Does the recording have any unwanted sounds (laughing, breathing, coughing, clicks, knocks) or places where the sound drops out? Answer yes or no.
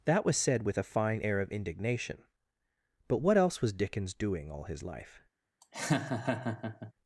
yes